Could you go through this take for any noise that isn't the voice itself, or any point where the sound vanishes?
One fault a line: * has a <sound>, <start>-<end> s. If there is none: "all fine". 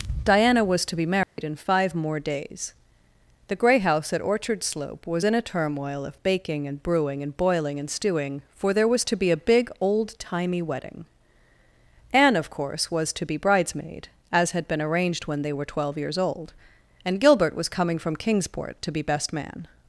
* has a dropout, 1.2-1.4 s